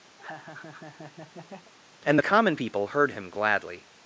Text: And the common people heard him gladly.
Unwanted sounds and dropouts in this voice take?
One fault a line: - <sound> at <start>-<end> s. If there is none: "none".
- laugh at 0.2-1.7 s